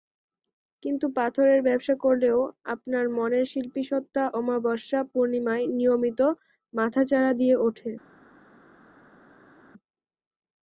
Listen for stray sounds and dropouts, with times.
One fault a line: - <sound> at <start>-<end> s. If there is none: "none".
none